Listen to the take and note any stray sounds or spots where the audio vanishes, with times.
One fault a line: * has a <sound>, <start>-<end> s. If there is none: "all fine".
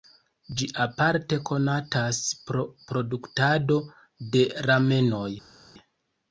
all fine